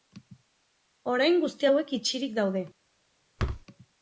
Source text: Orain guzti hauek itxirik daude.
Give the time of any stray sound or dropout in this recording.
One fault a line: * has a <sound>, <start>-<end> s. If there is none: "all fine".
* has a thud, 3.4-3.7 s